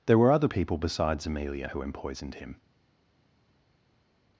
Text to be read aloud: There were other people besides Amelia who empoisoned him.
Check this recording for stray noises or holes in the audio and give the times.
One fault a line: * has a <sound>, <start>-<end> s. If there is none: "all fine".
all fine